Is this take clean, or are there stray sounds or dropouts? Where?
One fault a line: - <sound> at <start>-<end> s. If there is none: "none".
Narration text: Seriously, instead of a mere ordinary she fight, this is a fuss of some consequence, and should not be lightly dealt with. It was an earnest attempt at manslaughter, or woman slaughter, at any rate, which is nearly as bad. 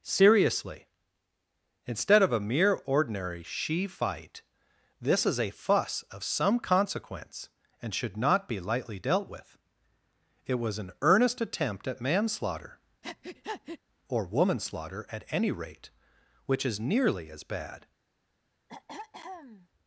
- breath at 13.0-13.8 s
- throat clearing at 18.7-19.7 s